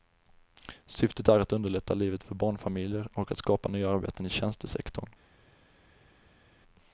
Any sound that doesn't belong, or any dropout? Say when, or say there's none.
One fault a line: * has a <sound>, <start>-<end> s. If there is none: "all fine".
all fine